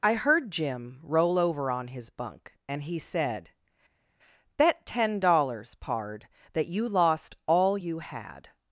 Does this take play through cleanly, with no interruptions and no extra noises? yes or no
yes